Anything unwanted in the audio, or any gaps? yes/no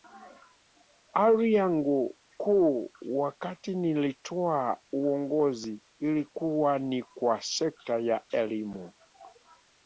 no